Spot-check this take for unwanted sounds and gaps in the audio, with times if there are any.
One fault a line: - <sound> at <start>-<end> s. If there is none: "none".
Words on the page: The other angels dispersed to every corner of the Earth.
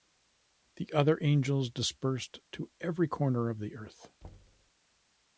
- thud at 4.2-4.7 s